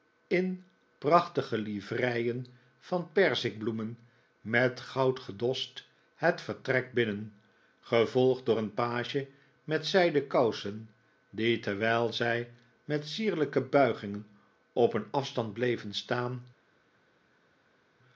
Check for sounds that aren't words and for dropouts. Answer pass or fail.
pass